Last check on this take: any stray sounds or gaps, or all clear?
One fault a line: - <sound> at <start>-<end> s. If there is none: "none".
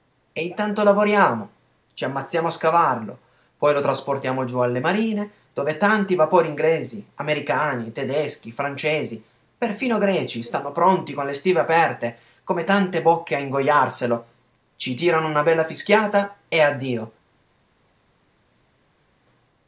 none